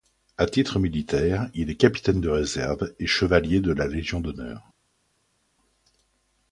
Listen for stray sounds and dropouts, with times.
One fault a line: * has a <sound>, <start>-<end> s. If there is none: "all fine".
all fine